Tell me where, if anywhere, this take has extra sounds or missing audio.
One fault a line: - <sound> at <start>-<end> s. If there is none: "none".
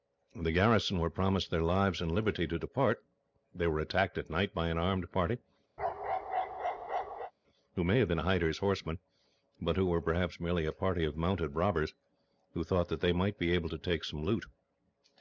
- bark at 5.8-7.3 s